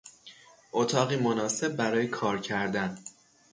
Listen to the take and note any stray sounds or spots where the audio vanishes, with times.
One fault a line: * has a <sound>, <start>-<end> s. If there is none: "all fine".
all fine